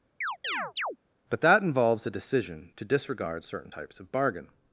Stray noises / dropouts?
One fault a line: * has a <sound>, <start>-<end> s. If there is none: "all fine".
* has a chirp, 0.2-1.0 s